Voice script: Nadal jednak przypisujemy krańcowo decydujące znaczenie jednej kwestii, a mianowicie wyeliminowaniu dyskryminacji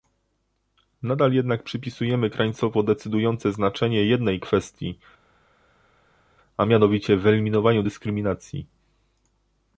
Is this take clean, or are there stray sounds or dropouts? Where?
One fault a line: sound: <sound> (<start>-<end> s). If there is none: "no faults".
no faults